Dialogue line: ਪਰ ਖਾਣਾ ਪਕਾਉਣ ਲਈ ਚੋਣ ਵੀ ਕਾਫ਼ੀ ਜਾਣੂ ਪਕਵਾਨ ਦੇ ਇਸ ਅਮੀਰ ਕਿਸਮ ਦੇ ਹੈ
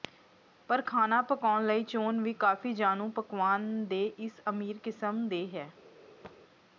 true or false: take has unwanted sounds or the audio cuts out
true